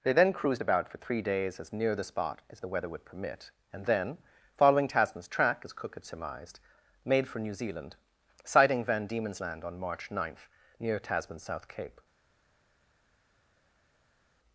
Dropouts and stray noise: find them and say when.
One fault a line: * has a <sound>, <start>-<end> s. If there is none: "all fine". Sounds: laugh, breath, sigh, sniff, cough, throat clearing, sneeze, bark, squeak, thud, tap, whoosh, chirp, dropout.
all fine